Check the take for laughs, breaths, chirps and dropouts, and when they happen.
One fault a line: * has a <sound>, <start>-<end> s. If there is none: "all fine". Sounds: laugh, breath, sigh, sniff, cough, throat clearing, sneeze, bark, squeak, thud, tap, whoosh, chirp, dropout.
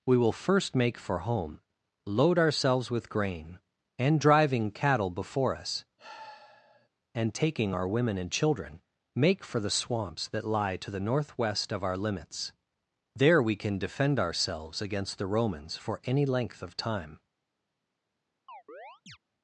* has a sigh, 6.0-6.9 s
* has a chirp, 18.5-19.2 s